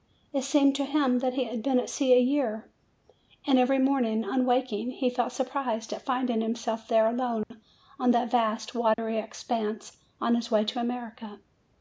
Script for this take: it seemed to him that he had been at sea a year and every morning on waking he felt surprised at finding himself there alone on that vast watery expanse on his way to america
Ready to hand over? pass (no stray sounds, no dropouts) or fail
fail